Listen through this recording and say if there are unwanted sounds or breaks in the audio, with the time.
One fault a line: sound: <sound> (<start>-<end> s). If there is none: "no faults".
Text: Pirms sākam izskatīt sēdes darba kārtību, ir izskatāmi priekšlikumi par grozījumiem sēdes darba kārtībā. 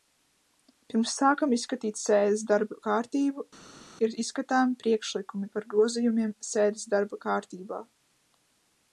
no faults